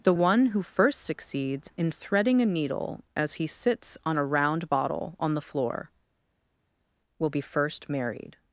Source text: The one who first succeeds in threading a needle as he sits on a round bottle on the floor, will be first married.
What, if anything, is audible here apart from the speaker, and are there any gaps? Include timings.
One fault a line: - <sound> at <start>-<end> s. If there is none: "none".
none